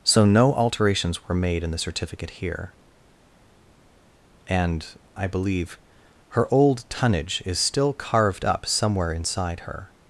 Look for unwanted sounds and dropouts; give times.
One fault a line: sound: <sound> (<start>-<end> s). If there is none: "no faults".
no faults